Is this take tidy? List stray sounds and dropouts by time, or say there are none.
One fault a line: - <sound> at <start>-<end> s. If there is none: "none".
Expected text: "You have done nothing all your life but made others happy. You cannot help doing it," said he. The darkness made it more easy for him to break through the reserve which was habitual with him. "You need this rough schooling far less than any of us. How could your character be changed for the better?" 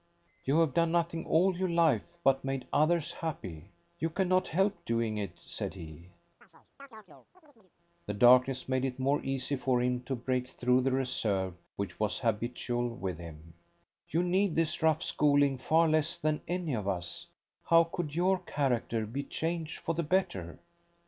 - chirp at 6.4-7.7 s